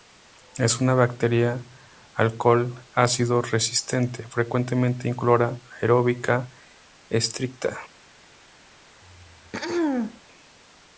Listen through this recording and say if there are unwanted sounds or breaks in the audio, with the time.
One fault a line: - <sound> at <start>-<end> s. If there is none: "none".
- throat clearing at 9.0-10.2 s